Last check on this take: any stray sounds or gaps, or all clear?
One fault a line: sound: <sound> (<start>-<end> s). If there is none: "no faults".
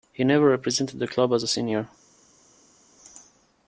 no faults